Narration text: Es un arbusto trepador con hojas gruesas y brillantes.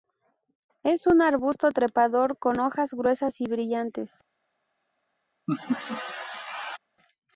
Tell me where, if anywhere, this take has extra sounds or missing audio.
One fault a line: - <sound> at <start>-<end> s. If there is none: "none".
- laugh at 5.5-6.8 s